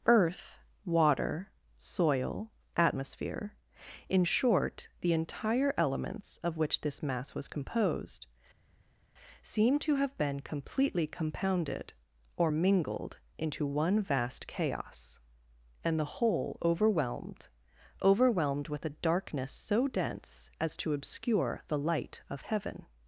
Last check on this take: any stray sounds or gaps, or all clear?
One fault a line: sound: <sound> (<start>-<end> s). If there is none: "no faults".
no faults